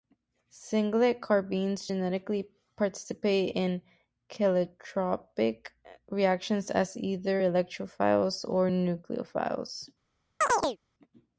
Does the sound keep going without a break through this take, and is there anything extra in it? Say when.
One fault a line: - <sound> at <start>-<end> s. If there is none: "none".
- chirp at 10.4-10.8 s